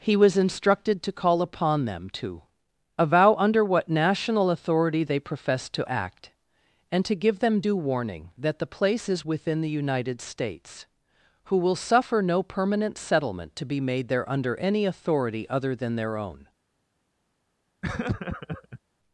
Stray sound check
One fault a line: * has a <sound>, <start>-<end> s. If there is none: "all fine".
* has a laugh, 17.8-18.8 s